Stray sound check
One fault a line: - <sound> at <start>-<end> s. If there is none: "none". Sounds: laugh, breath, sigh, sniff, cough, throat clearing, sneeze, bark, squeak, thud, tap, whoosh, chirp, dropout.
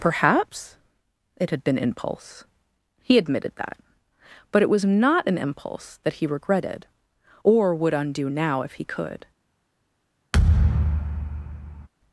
- thud at 10.3-11.9 s